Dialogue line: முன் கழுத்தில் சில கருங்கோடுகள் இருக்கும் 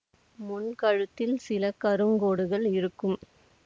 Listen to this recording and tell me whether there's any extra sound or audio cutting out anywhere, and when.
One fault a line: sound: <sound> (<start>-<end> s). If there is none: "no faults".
no faults